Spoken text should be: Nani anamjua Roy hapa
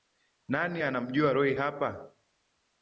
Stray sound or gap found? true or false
false